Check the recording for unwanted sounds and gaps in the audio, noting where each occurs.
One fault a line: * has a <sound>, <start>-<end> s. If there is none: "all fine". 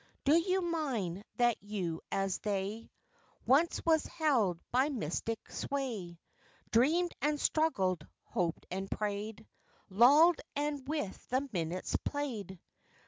all fine